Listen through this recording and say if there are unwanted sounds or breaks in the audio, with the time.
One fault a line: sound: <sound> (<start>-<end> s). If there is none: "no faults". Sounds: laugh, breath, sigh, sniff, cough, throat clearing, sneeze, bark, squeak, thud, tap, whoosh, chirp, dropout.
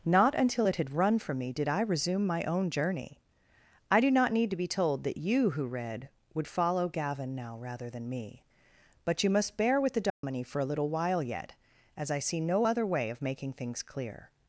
sound: dropout (10.1-10.2 s)